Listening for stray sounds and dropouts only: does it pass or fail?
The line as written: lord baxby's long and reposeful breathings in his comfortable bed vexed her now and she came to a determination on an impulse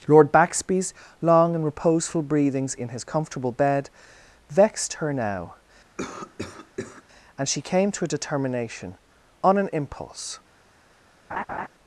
fail